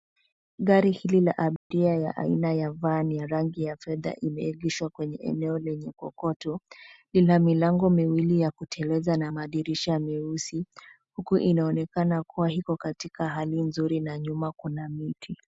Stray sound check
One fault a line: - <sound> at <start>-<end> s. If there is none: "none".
- dropout at 1.6-1.7 s